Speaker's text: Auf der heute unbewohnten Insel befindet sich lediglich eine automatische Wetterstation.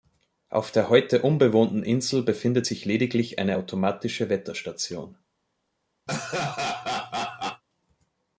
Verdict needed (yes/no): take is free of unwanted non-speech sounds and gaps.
no